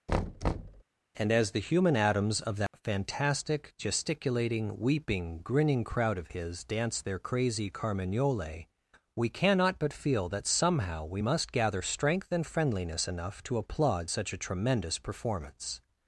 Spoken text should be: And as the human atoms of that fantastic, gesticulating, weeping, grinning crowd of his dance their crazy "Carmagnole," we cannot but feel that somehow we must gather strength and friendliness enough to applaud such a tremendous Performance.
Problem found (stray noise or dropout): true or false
true